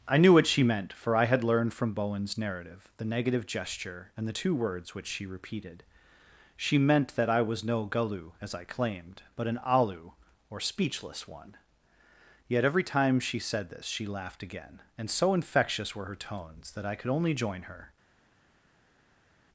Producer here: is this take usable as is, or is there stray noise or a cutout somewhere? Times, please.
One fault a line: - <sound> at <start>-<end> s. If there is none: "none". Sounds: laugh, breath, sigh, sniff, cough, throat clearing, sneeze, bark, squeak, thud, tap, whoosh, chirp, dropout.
none